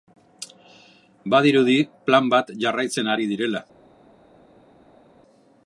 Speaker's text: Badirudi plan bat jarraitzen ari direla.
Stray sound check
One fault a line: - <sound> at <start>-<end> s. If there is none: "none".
none